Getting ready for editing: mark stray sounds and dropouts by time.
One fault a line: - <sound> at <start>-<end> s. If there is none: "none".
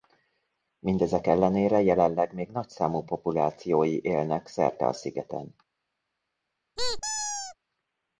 - squeak at 6.8-7.6 s